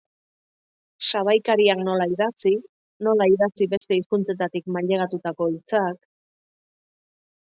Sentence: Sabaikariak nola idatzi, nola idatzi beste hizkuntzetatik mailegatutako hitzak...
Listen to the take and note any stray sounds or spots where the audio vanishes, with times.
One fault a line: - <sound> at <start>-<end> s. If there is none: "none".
- dropout at 3.8-3.8 s